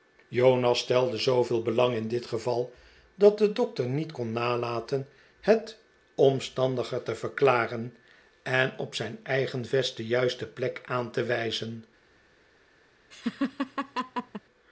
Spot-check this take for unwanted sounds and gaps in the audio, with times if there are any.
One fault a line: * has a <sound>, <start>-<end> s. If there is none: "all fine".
* has a laugh, 13.1-14.4 s